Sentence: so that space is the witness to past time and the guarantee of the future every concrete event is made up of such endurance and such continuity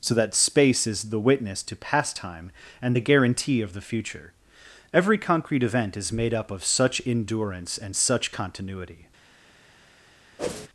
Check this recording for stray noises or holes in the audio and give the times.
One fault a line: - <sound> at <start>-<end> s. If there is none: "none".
- whoosh at 10.4-10.7 s